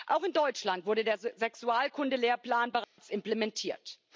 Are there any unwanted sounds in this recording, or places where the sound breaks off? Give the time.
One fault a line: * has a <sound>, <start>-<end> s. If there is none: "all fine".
* has a dropout, 2.8-3.0 s